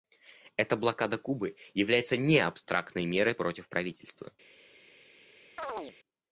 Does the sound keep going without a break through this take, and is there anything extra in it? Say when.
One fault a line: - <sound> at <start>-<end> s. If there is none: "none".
- chirp at 5.6-5.9 s